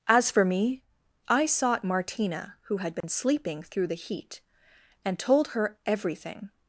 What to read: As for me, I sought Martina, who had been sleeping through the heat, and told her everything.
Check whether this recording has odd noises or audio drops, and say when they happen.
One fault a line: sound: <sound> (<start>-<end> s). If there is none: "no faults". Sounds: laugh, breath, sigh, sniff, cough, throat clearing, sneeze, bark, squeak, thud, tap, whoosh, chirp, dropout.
sound: dropout (3.0-3.0 s)